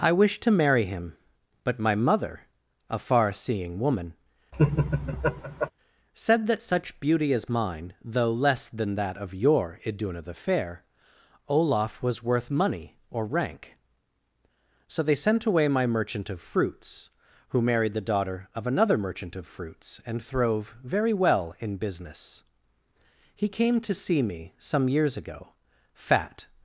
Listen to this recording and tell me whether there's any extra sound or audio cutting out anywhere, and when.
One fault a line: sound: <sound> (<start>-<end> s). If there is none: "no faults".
sound: laugh (4.5-5.7 s)